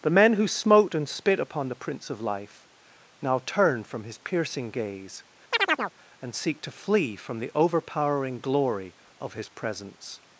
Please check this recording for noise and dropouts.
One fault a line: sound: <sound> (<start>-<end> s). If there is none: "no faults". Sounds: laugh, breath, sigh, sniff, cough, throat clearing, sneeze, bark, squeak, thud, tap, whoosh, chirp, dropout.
sound: chirp (5.5-5.9 s)